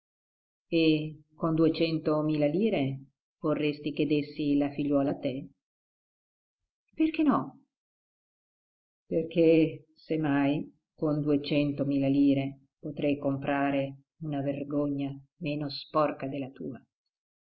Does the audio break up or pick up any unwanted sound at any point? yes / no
no